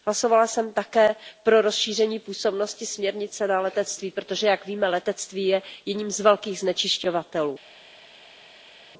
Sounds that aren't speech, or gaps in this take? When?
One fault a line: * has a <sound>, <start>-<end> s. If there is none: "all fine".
all fine